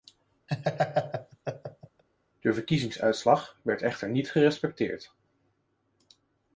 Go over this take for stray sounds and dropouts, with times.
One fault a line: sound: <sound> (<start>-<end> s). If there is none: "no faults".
sound: laugh (0.5-2.0 s)